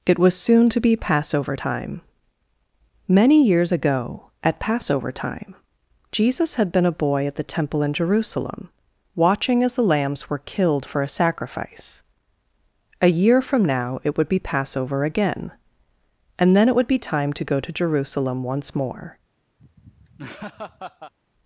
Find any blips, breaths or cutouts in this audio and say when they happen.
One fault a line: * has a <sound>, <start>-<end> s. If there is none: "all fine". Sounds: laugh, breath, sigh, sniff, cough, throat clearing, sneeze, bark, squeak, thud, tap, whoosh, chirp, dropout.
* has a laugh, 19.6-21.1 s